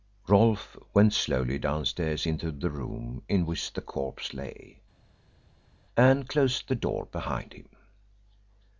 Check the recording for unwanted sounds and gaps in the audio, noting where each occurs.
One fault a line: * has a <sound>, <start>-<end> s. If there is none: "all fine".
all fine